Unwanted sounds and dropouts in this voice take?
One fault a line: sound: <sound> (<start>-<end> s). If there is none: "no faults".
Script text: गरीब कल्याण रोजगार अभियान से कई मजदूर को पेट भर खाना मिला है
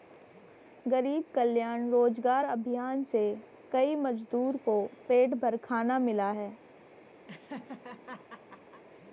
sound: laugh (7.3-8.8 s)